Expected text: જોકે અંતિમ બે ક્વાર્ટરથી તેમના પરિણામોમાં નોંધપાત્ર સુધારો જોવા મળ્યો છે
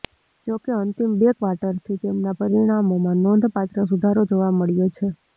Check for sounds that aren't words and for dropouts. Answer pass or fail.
pass